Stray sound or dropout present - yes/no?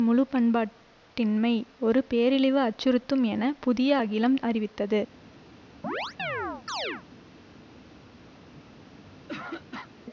yes